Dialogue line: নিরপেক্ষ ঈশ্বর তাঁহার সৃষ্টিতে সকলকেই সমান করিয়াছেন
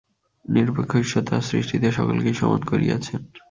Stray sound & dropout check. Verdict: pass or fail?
pass